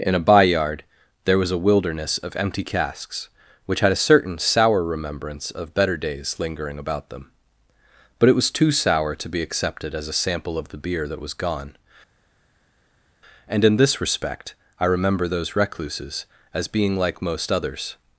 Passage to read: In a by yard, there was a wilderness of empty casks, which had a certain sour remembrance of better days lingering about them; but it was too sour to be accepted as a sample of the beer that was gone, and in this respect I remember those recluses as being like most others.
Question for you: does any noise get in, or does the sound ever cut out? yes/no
no